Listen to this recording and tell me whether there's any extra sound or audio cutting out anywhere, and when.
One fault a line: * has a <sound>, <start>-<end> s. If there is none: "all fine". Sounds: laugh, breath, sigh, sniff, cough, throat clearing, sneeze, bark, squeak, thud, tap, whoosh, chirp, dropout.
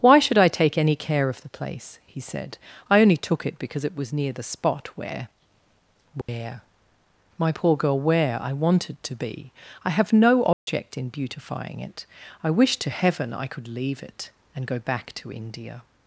* has a dropout, 6.2-6.3 s
* has a dropout, 10.5-10.7 s